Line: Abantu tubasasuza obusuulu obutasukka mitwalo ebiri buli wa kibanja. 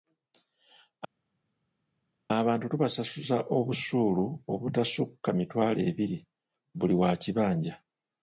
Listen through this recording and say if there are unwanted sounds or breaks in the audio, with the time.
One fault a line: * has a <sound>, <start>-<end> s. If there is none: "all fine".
all fine